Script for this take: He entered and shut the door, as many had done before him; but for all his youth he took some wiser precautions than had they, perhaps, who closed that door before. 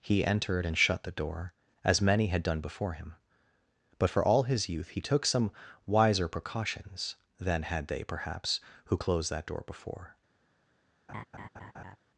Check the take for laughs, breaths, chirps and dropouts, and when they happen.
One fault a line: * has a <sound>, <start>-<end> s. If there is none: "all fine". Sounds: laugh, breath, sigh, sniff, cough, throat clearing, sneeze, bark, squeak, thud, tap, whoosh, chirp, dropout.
* has a laugh, 11.1-12.0 s